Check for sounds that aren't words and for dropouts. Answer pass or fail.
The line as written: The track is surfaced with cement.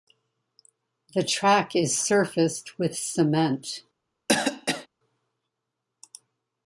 fail